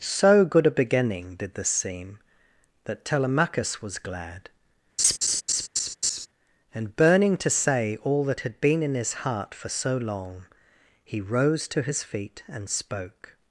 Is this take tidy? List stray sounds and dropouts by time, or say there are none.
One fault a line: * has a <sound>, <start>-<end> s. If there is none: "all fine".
* has a laugh, 5.0-6.3 s